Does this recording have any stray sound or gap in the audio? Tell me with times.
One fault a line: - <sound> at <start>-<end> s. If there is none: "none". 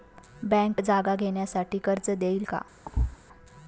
- thud at 2.8-3.2 s